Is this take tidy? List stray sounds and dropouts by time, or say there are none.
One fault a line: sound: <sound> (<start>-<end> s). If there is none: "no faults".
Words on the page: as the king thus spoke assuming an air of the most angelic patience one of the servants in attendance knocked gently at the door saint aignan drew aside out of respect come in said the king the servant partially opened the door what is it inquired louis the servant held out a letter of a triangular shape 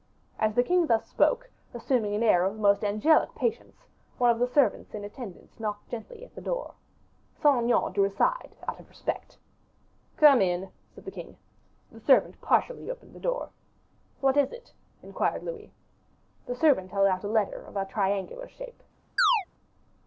sound: chirp (19.2-19.5 s)